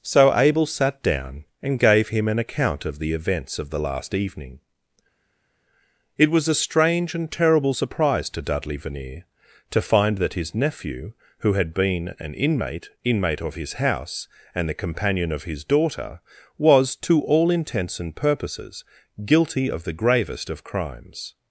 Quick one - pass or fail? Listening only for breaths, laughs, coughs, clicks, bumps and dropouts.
pass